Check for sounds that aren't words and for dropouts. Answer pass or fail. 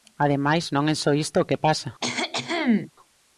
fail